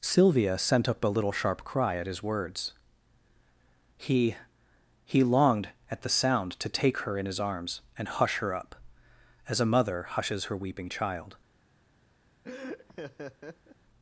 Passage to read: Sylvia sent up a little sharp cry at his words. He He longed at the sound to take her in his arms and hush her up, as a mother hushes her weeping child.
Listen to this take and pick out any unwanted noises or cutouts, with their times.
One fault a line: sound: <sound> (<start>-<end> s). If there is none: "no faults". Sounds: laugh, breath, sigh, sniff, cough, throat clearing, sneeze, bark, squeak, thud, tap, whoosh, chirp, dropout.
sound: laugh (12.4-13.8 s)